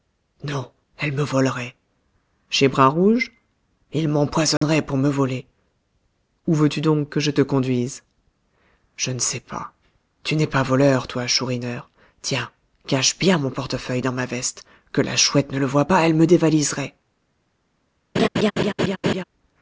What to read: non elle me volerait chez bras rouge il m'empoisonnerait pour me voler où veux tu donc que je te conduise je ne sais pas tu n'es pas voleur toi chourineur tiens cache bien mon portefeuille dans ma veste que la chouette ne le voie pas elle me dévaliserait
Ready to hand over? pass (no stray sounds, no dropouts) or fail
fail